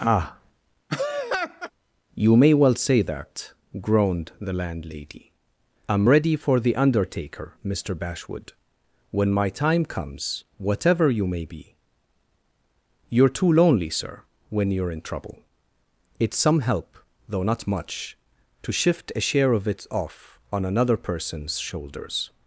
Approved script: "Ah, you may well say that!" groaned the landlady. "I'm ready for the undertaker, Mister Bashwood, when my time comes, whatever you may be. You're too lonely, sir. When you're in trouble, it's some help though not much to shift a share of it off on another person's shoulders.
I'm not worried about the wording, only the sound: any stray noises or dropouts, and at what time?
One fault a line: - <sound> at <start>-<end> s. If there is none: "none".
- laugh at 0.9-1.7 s